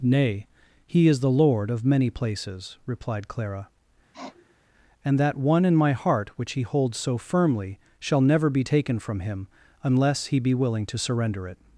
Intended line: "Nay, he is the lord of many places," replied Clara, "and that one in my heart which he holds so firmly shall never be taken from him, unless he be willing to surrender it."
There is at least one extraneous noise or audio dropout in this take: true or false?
true